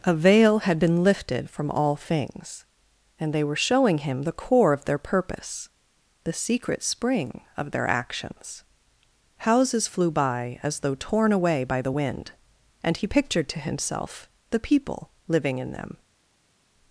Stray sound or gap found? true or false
false